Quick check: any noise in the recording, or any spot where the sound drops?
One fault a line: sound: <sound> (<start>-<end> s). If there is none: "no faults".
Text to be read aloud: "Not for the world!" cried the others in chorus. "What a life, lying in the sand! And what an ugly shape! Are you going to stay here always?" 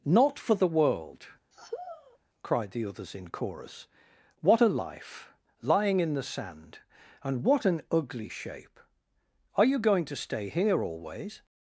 sound: sigh (1.5-2.2 s)